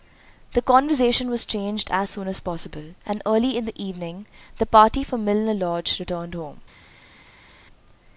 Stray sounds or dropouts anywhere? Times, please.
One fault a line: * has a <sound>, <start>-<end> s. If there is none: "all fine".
all fine